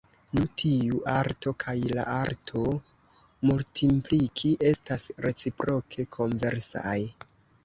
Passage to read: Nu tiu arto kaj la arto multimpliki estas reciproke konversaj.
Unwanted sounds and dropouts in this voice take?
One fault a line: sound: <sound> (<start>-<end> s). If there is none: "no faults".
no faults